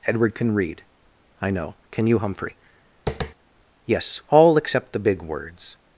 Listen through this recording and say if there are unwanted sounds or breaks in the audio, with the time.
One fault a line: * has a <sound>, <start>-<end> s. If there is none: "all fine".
* has a tap, 3.1-3.3 s